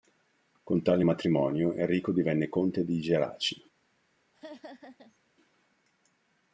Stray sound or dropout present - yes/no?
yes